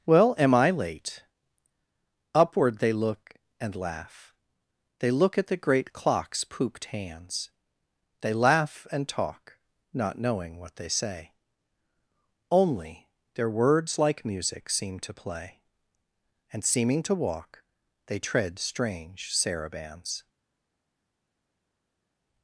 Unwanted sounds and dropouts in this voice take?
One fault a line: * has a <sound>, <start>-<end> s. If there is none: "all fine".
all fine